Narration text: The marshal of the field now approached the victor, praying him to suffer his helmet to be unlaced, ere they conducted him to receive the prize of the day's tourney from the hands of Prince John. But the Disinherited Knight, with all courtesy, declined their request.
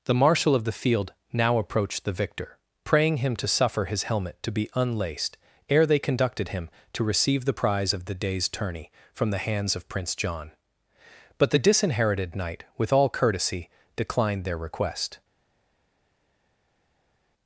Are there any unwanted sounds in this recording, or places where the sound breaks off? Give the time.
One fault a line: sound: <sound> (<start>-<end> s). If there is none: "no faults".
no faults